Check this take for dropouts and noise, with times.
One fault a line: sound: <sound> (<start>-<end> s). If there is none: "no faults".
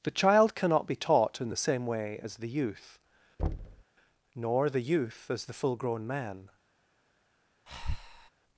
sound: thud (3.4-3.8 s)
sound: breath (7.7-8.3 s)